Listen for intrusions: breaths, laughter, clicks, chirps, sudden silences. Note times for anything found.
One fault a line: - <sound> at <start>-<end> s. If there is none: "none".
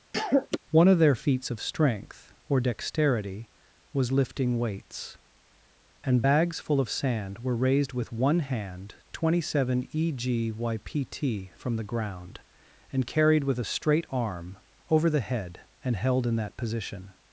- cough at 0.1-0.6 s